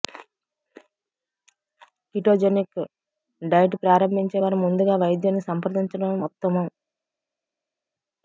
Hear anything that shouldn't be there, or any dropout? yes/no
no